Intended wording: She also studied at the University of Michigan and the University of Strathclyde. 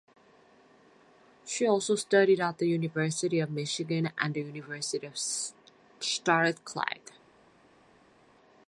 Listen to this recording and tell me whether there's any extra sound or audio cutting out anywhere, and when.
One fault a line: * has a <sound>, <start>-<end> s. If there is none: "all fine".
all fine